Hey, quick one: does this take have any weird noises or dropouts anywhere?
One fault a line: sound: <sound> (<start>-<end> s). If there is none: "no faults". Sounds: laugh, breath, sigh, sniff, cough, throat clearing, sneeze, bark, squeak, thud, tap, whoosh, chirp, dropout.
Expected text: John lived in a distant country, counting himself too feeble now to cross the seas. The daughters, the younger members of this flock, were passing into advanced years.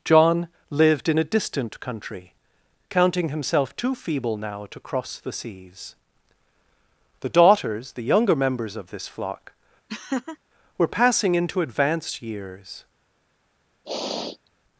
sound: laugh (9.9-10.4 s)
sound: sniff (13.9-14.5 s)